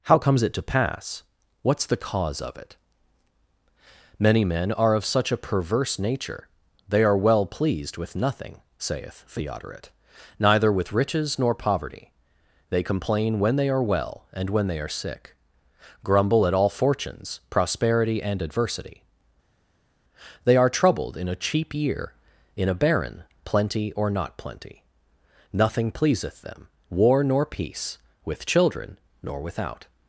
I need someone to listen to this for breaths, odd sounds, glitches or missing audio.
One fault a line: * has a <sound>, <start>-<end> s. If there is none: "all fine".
all fine